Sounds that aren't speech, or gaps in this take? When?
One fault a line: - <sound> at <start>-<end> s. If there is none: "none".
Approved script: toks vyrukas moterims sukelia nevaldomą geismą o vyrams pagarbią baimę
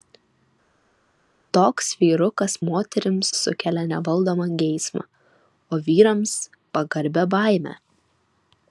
none